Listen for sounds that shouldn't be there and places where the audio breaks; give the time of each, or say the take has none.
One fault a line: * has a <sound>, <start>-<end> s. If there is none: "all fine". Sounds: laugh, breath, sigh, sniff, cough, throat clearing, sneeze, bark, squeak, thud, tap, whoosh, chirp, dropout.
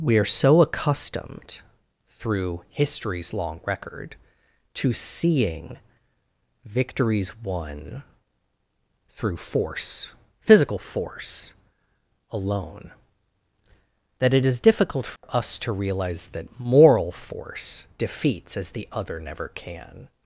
* has a dropout, 15.2-15.2 s